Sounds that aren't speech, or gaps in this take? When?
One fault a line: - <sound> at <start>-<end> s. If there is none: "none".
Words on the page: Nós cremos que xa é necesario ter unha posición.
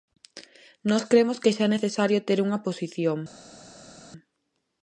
none